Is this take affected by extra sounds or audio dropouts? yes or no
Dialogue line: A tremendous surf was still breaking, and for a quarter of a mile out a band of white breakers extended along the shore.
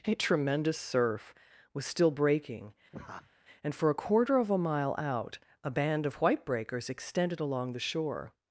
yes